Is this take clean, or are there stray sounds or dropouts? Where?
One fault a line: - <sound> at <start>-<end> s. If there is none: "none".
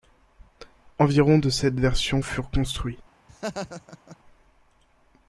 - laugh at 3.3-4.2 s